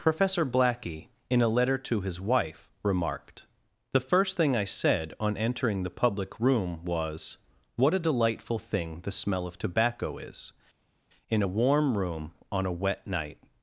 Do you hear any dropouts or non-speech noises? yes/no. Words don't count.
no